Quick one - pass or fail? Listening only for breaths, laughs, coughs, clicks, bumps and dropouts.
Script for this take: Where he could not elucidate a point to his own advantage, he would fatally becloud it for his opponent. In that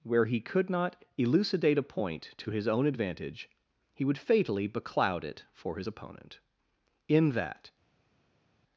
pass